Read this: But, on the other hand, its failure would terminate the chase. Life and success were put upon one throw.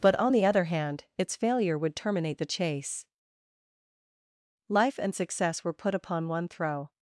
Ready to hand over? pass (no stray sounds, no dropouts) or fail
pass